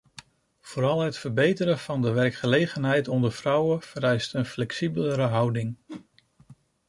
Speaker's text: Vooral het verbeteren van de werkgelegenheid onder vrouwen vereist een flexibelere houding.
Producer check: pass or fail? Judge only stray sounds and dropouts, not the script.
fail